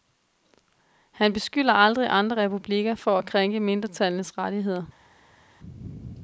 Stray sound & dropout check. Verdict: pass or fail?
pass